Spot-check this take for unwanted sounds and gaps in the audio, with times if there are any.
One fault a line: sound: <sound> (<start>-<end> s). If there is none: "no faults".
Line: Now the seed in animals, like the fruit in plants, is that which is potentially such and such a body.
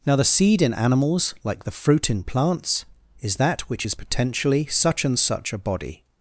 no faults